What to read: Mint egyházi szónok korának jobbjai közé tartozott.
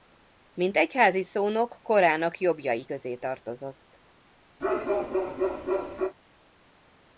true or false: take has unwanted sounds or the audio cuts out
true